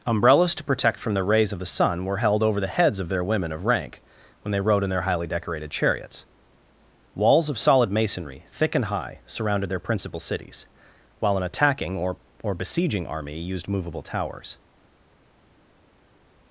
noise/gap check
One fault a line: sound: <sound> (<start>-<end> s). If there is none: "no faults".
no faults